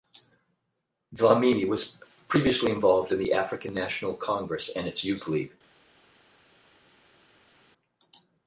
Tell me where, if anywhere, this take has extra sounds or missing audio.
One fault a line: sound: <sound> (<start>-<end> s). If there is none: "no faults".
no faults